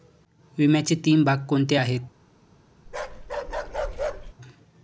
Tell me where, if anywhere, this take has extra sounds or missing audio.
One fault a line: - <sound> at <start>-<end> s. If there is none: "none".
- bark at 2.9-4.3 s